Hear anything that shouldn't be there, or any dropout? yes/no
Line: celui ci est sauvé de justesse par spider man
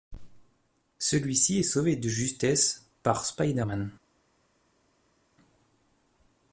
no